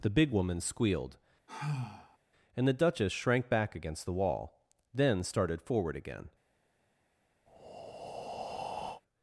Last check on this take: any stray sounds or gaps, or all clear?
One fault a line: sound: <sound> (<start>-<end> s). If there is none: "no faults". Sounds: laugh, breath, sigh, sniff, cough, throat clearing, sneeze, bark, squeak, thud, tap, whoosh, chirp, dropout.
sound: sigh (1.5-2.2 s)
sound: breath (7.5-9.0 s)